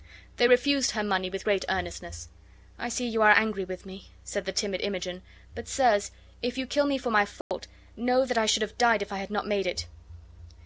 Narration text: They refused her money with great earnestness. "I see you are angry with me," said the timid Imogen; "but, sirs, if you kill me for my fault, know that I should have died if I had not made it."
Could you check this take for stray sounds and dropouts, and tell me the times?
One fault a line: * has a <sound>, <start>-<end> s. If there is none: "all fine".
* has a dropout, 7.4-7.5 s